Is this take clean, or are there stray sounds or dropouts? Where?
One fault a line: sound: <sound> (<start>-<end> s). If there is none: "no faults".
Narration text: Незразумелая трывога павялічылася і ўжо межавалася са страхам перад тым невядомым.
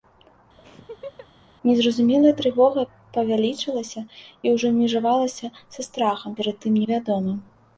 sound: laugh (0.6-1.3 s)